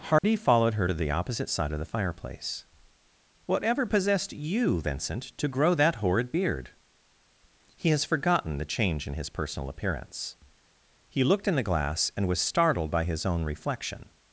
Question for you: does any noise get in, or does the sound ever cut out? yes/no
yes